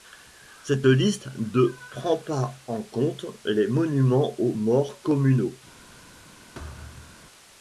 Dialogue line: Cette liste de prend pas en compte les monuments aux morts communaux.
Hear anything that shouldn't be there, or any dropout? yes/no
yes